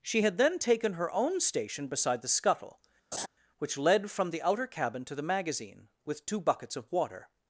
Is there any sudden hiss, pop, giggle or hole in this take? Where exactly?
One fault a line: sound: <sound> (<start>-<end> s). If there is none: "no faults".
sound: laugh (3.1-3.3 s)